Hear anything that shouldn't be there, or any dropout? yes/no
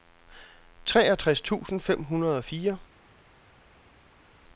no